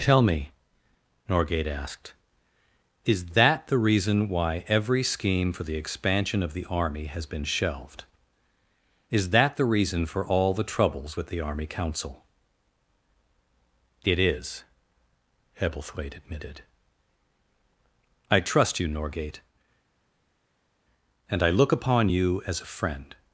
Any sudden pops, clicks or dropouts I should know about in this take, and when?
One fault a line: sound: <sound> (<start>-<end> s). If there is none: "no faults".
no faults